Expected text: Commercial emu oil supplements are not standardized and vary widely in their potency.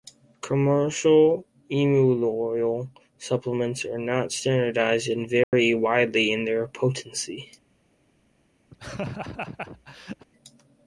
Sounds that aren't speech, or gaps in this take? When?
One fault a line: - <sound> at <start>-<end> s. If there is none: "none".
- dropout at 5.4-5.5 s
- laugh at 8.7-10.3 s